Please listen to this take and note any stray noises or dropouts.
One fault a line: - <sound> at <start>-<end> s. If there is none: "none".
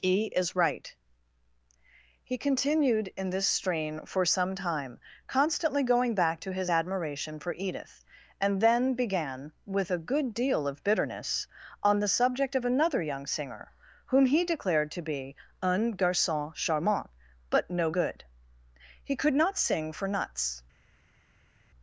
none